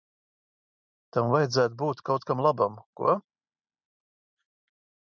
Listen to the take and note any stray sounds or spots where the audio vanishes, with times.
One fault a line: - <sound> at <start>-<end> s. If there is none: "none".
none